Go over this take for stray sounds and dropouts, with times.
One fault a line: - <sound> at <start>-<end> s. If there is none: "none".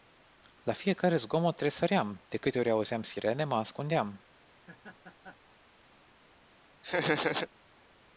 - laugh at 4.5-5.6 s
- laugh at 6.8-7.5 s